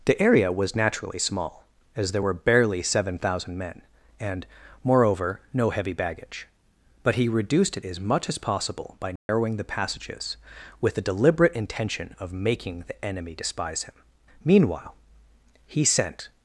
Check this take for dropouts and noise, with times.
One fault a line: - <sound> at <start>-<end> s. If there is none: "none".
- dropout at 9.2-9.3 s